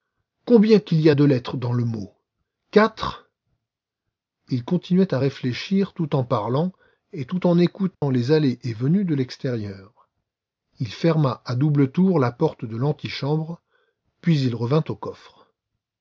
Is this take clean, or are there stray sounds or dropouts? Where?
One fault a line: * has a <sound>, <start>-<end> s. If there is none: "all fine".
* has a dropout, 7.9-8.0 s